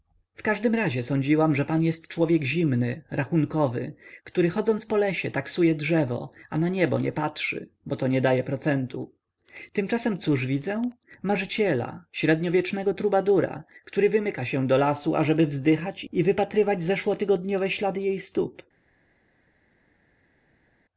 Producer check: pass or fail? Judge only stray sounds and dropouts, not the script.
pass